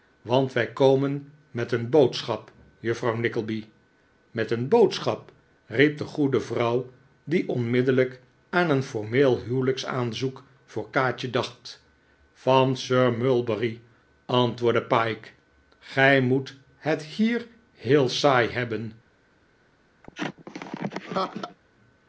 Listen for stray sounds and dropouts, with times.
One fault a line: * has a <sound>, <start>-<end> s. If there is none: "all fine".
* has a laugh, 20.0-21.6 s